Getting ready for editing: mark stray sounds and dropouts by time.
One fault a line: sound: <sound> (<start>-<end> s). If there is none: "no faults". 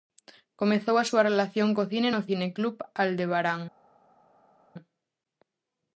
no faults